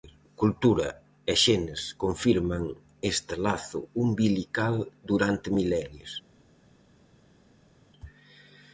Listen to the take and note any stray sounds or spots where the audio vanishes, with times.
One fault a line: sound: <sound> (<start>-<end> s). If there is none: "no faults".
no faults